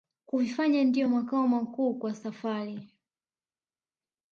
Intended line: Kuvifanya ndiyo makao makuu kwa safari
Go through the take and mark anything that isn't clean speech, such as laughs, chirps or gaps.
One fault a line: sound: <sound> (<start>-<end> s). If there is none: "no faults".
no faults